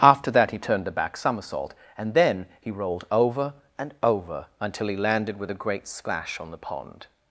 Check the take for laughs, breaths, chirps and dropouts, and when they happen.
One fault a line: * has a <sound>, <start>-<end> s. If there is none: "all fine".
all fine